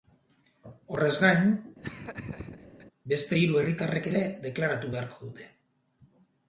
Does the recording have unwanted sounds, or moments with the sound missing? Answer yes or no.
yes